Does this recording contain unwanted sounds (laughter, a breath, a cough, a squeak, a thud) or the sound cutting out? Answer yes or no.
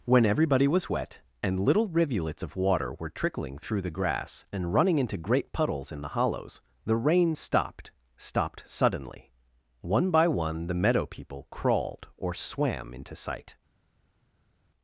no